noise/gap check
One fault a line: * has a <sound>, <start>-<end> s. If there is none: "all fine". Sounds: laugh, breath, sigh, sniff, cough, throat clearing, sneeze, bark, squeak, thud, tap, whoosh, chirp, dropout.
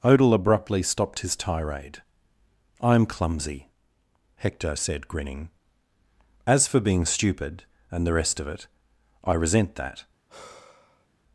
* has a sigh, 10.3-11.1 s